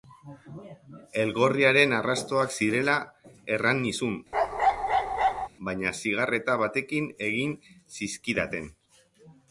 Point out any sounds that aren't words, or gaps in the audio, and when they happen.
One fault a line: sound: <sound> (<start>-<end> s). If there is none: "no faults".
sound: bark (4.3-5.5 s)